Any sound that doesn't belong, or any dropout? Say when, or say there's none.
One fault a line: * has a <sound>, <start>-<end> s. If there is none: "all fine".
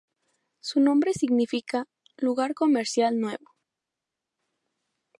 all fine